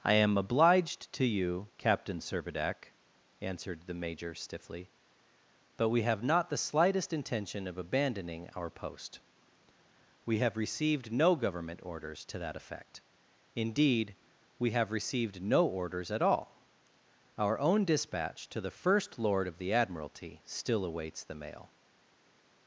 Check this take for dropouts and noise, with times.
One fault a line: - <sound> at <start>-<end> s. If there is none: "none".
none